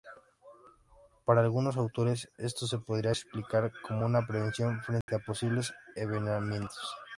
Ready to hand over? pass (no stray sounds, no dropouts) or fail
fail